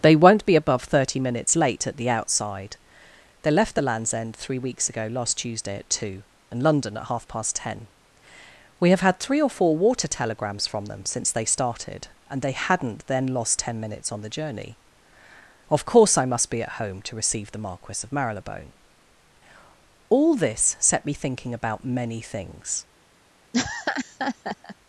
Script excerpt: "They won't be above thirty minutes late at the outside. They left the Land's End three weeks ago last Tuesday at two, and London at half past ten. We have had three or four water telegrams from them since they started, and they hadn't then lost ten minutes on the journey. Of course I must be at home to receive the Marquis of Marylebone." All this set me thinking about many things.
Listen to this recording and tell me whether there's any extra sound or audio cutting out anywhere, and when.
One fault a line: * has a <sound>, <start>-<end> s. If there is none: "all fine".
* has a laugh, 23.5-24.8 s